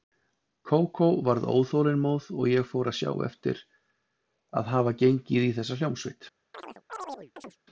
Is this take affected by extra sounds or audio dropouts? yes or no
yes